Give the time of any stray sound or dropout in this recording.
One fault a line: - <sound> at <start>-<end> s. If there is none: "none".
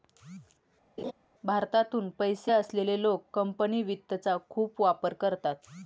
- laugh at 1.0-1.1 s